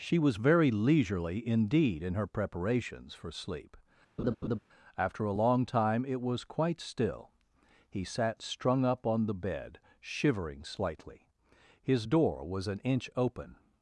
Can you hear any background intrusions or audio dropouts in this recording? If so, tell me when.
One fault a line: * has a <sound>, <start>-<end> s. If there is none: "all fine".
* has a laugh, 4.2-4.6 s